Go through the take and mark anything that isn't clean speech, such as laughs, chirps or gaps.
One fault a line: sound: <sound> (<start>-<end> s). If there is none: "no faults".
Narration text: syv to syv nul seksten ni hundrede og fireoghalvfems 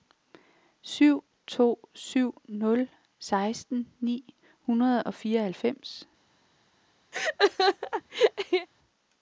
sound: laugh (7.1-8.7 s)